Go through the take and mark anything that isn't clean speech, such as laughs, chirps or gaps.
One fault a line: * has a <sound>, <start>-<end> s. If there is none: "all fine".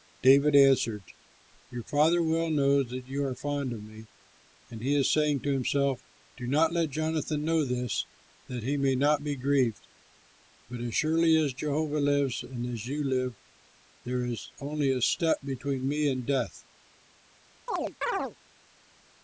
* has a chirp, 17.7-18.4 s